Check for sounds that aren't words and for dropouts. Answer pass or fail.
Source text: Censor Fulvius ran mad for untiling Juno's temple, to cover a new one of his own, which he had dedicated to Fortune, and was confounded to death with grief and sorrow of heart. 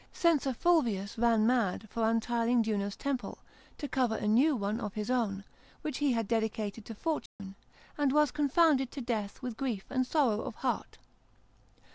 fail